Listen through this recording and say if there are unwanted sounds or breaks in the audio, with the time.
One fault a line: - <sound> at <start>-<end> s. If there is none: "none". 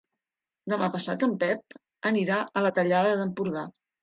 none